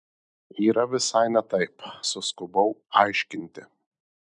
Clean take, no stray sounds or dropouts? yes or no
yes